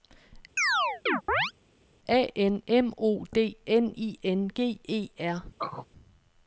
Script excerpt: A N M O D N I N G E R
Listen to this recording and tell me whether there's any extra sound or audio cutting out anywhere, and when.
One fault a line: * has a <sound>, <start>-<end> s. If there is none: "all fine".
* has a chirp, 0.6-1.5 s
* has a throat clearing, 5.6-5.9 s